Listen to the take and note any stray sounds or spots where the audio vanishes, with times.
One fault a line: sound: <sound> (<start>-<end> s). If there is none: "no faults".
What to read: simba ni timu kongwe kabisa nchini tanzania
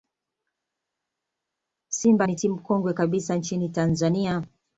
no faults